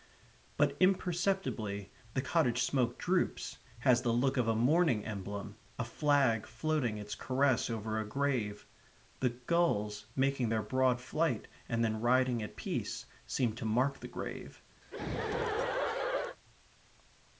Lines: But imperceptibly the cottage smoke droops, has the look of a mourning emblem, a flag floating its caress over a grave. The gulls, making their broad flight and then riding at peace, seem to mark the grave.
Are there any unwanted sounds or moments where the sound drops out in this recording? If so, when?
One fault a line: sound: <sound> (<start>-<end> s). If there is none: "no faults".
sound: laugh (14.8-16.4 s)